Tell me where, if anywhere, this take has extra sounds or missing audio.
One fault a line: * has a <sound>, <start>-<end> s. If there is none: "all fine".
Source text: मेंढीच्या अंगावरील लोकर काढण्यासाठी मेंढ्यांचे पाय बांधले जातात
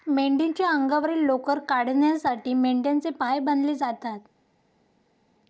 all fine